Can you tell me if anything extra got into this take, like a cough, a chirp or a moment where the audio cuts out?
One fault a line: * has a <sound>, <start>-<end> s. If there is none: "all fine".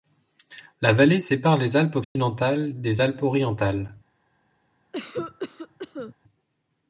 * has a dropout, 2.0-2.2 s
* has a cough, 4.9-6.1 s